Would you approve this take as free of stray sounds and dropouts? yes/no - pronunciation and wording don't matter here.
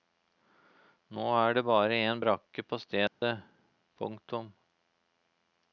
no